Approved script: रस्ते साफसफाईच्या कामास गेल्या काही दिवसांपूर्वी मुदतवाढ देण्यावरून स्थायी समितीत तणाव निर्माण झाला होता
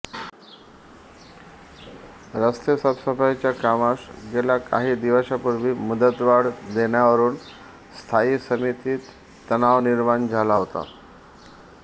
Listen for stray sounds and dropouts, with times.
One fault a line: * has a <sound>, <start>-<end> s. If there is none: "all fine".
all fine